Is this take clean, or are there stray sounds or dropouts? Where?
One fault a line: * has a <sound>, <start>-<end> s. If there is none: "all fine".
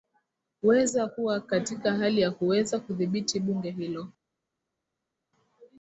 all fine